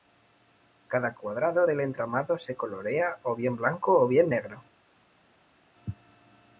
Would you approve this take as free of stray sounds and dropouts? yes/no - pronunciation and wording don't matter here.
yes